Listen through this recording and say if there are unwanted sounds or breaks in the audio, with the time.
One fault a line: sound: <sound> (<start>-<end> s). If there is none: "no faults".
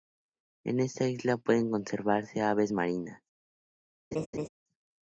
sound: laugh (4.1-4.5 s)